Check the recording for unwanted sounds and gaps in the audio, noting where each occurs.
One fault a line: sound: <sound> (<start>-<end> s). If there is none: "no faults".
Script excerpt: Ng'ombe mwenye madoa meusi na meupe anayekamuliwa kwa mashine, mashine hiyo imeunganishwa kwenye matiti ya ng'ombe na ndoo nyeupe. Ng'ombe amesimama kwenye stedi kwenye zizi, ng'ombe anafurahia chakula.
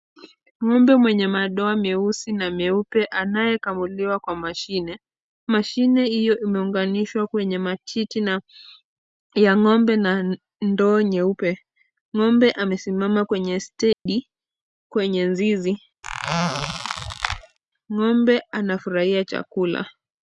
sound: dropout (13.9-14.1 s)
sound: squeak (16.0-17.6 s)